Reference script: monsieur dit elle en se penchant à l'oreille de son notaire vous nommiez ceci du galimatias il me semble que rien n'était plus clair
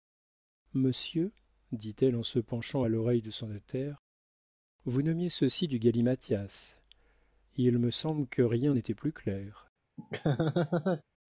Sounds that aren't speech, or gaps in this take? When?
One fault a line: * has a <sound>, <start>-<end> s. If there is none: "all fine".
* has a laugh, 10.0-11.0 s